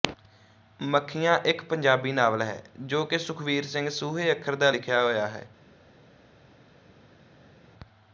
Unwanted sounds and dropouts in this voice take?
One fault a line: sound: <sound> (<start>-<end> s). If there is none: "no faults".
no faults